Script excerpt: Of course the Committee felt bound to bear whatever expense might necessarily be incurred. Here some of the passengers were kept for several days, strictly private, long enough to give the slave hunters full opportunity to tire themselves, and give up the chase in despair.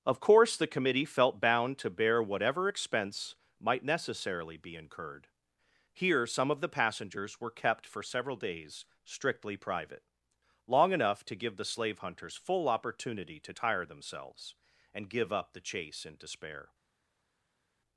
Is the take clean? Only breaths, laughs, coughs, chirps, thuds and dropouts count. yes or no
yes